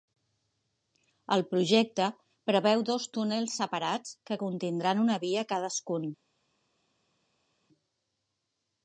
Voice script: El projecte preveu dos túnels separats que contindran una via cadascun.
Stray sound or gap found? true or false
false